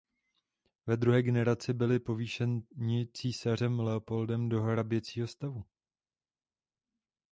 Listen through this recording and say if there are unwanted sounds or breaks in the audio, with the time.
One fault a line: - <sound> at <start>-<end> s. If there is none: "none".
none